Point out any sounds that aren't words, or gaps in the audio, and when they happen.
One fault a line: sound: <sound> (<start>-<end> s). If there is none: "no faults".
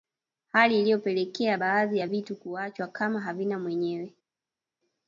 no faults